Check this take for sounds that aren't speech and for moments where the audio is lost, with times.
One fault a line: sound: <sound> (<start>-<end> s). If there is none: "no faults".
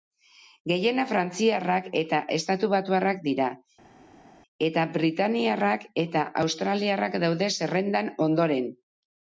no faults